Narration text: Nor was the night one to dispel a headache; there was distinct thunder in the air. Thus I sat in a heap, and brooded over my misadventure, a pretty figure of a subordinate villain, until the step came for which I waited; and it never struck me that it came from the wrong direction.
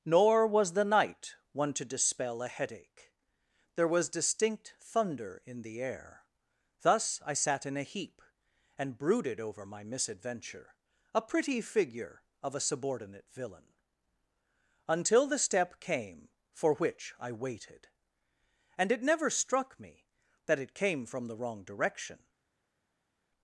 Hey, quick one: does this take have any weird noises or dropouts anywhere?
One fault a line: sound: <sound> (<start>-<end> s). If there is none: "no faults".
no faults